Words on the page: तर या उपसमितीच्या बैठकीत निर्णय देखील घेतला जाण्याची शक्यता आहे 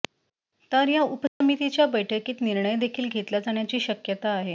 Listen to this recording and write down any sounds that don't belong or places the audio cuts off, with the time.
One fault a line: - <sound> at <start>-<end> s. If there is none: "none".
- dropout at 1.3-1.4 s